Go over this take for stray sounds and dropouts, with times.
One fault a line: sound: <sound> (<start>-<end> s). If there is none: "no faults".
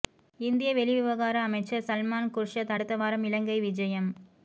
no faults